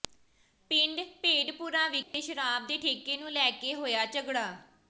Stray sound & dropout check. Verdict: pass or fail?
fail